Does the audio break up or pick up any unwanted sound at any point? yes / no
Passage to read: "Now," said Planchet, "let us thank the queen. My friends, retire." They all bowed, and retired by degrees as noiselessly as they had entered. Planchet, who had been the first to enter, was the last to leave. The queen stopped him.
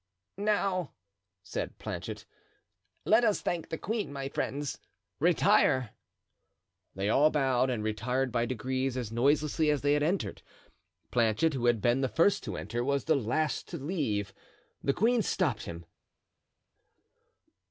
no